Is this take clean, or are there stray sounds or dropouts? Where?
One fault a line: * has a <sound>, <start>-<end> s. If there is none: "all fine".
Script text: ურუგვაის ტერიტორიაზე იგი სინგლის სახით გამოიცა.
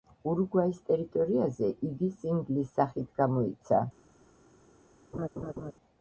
* has a laugh, 5.1-5.7 s